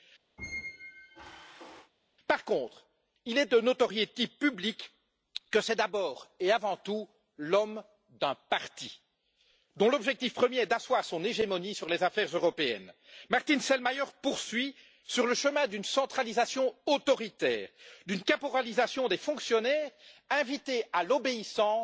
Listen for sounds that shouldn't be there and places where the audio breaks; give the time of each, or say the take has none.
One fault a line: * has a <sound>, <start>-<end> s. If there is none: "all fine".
* has a squeak, 0.4-1.9 s